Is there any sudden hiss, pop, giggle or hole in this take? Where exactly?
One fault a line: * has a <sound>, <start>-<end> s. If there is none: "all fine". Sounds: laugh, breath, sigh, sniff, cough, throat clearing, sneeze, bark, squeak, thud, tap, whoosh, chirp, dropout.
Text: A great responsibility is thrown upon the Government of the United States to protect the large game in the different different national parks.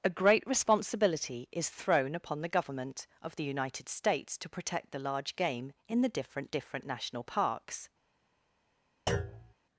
* has a thud, 9.1-9.5 s